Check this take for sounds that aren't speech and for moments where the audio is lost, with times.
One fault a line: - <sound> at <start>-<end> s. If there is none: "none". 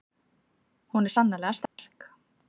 - dropout at 1.7-1.8 s